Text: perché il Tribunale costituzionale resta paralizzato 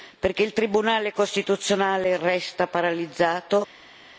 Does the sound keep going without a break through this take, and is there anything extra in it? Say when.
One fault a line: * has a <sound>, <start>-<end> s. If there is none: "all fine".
all fine